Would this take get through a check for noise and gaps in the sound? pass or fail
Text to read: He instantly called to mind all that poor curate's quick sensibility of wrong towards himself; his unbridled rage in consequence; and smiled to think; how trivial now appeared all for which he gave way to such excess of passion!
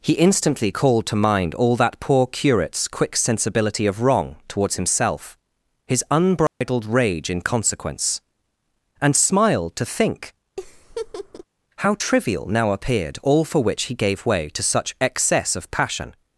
fail